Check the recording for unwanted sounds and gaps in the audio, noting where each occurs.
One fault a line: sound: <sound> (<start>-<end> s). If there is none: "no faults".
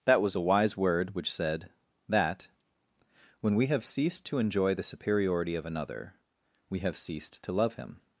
no faults